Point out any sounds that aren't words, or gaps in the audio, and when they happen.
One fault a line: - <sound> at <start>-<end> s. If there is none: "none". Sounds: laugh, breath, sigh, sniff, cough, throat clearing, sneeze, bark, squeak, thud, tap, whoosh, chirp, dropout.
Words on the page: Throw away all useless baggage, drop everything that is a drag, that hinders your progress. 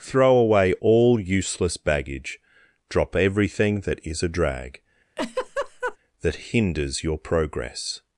- laugh at 5.2-6.0 s